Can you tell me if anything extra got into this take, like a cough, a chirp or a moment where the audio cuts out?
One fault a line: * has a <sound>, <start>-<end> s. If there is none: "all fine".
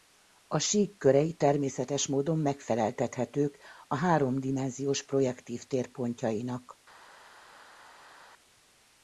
all fine